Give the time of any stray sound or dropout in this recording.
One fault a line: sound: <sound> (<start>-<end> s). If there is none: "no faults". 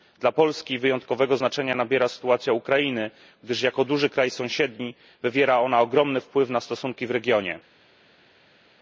no faults